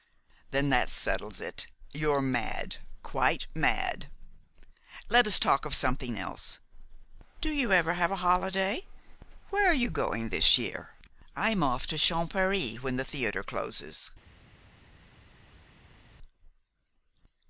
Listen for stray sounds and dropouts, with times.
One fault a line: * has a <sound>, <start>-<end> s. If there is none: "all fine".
all fine